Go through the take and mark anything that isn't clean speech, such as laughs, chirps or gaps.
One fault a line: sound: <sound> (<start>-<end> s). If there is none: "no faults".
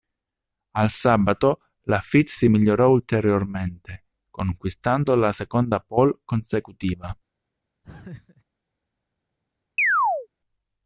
sound: laugh (7.8-8.4 s)
sound: chirp (9.8-10.3 s)